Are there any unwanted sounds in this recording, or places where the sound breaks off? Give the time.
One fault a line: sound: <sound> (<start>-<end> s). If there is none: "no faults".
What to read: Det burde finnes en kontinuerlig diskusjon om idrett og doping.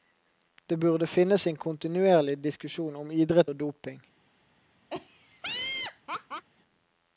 sound: laugh (4.9-6.5 s)